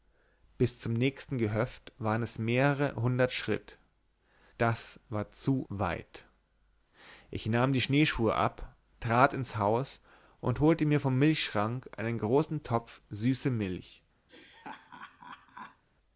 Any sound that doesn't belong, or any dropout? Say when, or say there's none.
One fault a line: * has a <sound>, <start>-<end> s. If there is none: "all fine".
* has a laugh, 14.3-15.8 s